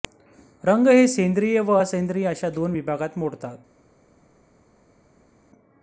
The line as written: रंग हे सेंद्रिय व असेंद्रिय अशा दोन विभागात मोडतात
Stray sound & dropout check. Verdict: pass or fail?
pass